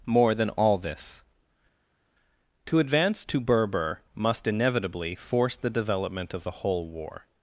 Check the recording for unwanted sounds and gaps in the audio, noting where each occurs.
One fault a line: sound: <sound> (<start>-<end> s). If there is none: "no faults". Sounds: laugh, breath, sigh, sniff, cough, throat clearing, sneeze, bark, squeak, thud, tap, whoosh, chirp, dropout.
no faults